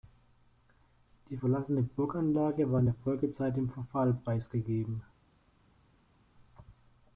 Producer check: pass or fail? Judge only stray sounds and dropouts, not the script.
pass